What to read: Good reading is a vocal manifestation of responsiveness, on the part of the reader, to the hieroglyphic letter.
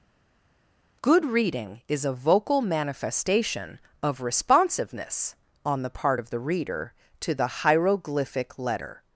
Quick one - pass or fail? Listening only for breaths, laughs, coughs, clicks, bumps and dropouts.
pass